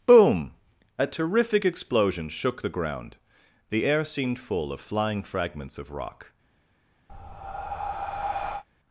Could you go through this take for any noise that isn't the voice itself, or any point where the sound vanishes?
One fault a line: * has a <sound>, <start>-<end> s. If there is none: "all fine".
* has a breath, 7.1-8.6 s